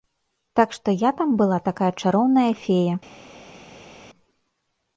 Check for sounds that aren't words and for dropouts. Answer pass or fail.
pass